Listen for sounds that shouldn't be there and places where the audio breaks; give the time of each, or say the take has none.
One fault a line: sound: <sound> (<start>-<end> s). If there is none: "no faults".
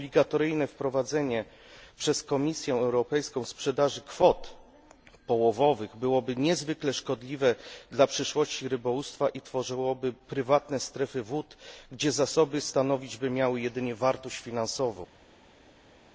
no faults